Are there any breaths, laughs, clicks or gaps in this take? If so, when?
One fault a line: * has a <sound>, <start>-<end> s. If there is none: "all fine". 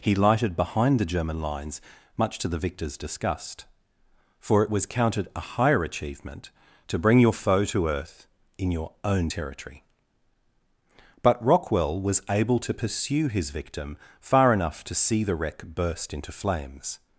all fine